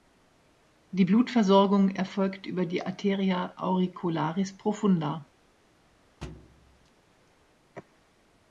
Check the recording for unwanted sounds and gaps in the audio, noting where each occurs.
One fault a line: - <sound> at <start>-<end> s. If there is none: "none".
- thud at 6.2-6.9 s